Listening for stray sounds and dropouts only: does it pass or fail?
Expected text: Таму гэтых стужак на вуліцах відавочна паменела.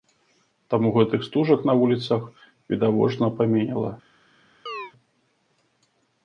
fail